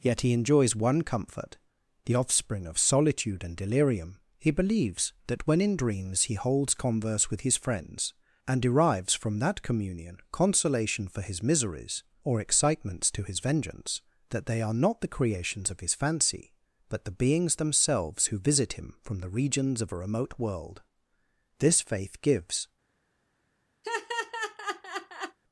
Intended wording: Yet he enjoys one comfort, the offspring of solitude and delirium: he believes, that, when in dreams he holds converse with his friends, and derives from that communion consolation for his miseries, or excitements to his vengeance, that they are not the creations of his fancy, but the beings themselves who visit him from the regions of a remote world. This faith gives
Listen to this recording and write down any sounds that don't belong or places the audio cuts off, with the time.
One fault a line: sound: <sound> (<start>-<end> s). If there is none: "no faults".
sound: laugh (23.8-25.4 s)